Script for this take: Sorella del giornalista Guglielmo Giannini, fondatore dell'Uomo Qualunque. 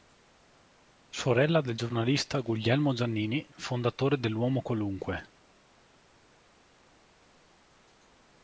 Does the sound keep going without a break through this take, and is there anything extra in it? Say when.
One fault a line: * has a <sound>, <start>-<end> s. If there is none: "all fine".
all fine